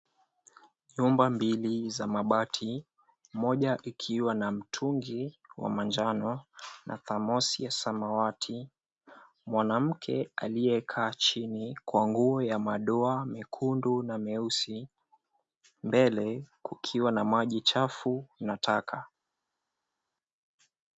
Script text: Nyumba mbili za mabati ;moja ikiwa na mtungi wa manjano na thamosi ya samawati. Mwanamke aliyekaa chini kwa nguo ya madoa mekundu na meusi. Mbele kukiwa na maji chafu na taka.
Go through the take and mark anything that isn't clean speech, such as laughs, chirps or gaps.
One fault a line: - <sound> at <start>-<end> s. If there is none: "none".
none